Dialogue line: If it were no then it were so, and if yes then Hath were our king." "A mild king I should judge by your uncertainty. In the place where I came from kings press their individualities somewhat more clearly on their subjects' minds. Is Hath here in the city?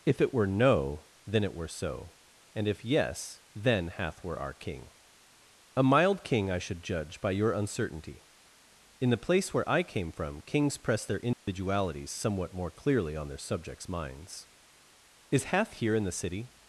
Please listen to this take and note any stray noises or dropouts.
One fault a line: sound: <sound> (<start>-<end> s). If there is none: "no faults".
sound: dropout (11.3-11.5 s)